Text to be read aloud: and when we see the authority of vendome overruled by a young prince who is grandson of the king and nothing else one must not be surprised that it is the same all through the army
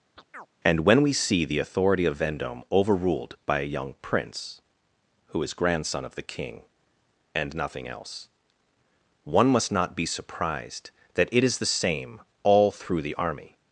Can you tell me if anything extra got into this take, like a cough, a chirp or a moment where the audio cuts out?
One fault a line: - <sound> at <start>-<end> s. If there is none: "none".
- chirp at 0.2-0.5 s